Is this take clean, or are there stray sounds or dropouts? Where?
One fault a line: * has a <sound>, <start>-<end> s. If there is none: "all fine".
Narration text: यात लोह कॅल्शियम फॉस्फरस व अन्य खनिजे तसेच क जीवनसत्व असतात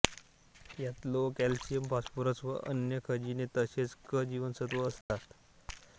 * has a dropout, 5.0-5.1 s